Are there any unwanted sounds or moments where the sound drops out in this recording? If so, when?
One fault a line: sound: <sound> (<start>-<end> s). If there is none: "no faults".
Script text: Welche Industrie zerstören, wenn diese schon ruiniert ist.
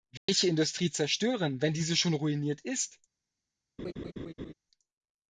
sound: dropout (0.2-0.3 s)
sound: laugh (3.8-4.5 s)